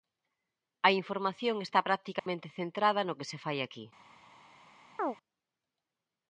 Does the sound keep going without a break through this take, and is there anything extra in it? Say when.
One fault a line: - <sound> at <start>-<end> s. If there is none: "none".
- dropout at 2.2-2.3 s
- chirp at 5.0-5.2 s